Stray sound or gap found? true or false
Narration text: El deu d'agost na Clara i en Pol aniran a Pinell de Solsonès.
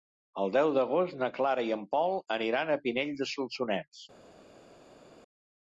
false